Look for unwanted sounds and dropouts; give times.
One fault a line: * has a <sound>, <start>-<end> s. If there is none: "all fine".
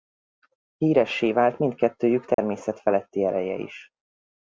* has a dropout, 2.3-2.4 s